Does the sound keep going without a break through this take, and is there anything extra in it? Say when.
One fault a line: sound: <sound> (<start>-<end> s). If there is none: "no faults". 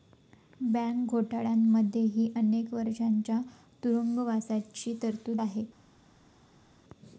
no faults